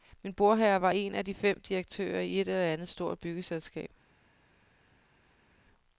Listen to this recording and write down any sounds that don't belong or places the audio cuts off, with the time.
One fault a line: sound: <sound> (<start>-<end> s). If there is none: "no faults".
no faults